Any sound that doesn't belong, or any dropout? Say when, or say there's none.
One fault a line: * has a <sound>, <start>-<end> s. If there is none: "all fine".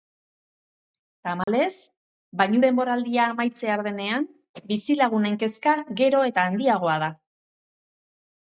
* has a dropout, 1.4-1.5 s